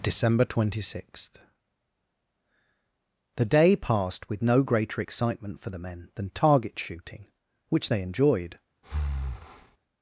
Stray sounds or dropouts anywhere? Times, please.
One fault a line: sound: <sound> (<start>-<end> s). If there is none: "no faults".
sound: breath (8.8-9.8 s)